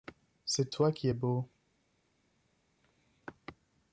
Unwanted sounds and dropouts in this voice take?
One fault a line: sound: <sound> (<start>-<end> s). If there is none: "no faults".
no faults